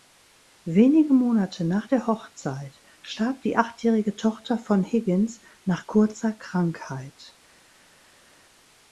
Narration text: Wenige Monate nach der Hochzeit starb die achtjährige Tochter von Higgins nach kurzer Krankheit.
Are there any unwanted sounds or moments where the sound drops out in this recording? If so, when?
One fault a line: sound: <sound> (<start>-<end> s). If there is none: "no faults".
no faults